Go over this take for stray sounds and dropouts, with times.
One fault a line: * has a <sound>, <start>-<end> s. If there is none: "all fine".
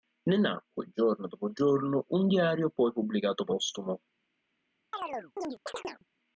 * has a chirp, 4.9-6.0 s